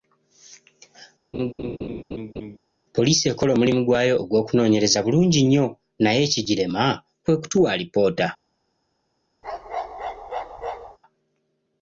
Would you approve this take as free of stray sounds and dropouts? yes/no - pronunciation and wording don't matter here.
no